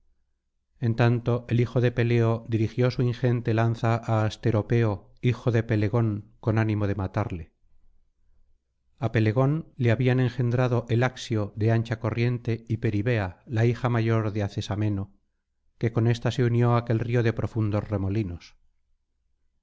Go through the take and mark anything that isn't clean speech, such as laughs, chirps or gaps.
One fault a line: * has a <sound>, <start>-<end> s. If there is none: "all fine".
all fine